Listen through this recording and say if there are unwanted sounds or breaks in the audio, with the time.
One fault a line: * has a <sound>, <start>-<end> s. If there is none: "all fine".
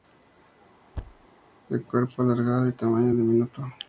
* has a thud, 0.9-1.3 s